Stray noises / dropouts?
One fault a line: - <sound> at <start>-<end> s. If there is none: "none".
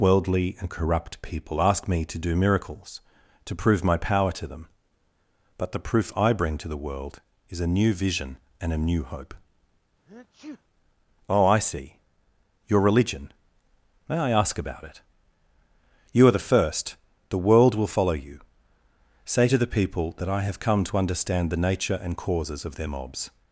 - sneeze at 10.1-10.6 s